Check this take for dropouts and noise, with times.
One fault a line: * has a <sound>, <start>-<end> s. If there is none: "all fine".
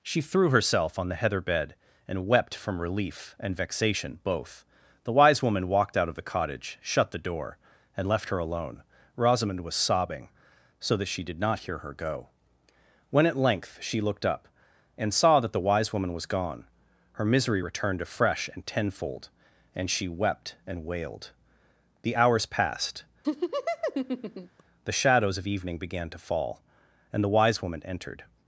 * has a laugh, 23.2-24.6 s